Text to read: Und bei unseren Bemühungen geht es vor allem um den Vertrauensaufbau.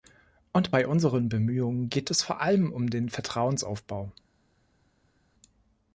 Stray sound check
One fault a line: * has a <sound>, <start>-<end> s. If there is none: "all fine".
all fine